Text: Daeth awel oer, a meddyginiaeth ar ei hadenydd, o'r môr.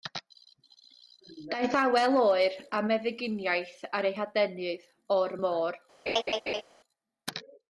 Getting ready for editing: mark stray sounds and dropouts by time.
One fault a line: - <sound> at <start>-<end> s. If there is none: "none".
- laugh at 6.1-6.6 s